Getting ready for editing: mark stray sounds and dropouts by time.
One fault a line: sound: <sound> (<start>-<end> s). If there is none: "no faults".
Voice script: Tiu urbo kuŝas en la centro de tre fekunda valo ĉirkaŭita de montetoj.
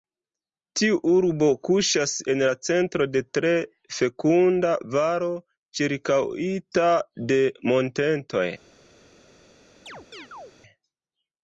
sound: chirp (9.9-10.5 s)